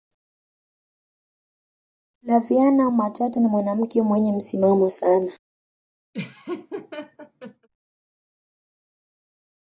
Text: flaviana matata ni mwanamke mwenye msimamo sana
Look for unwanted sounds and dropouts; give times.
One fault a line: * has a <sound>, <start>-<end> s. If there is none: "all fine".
* has a laugh, 6.1-7.7 s